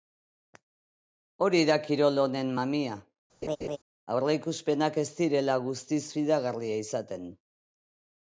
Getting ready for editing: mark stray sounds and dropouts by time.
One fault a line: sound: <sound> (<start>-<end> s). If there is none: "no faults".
sound: laugh (3.4-3.8 s)